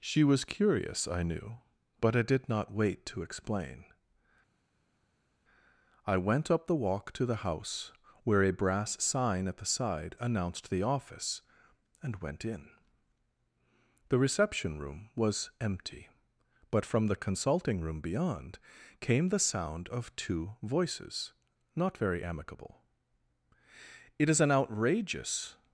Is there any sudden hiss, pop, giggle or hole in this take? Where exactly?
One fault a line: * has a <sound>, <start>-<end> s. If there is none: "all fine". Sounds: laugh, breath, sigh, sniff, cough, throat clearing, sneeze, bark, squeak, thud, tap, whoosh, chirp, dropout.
all fine